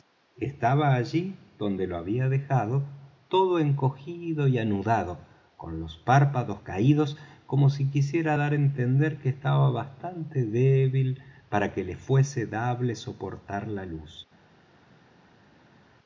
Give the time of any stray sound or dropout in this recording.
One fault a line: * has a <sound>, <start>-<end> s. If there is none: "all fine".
all fine